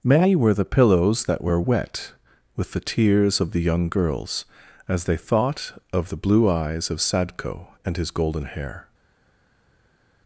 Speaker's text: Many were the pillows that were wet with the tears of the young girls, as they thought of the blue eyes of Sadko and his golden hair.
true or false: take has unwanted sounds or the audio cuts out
false